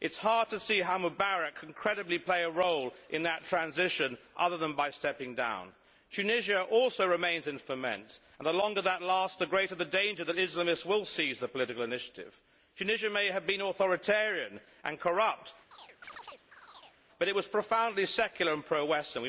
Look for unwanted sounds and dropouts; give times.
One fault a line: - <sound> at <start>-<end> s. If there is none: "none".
- chirp at 15.7-17.0 s